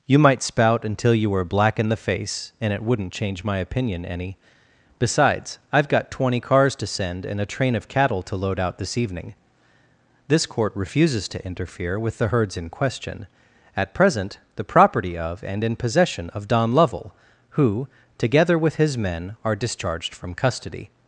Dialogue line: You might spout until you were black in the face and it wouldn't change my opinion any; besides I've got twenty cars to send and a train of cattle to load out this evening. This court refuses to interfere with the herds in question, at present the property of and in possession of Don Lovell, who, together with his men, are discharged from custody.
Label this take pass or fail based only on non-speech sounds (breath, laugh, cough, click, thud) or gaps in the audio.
pass